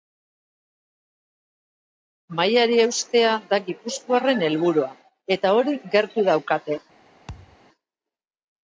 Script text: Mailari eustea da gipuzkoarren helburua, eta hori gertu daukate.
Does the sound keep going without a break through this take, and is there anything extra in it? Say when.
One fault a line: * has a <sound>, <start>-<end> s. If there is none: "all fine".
* has a thud, 7.3-7.6 s